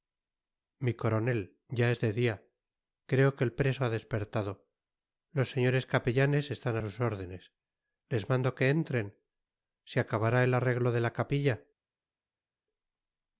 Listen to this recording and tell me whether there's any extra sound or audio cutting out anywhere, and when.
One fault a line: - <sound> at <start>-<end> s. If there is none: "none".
none